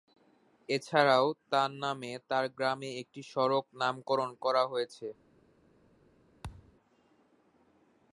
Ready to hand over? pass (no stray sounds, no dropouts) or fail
fail